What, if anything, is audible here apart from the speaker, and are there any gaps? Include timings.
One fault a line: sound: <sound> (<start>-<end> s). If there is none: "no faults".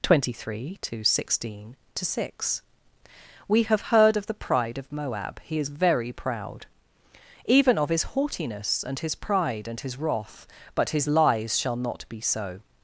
no faults